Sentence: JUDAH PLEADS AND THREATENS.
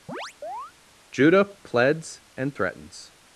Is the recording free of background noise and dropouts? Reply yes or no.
no